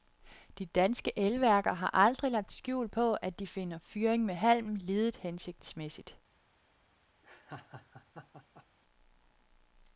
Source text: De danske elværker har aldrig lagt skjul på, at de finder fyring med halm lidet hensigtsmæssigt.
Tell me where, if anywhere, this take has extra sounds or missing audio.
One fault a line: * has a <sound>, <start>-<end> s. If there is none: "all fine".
* has a laugh, 7.2-8.7 s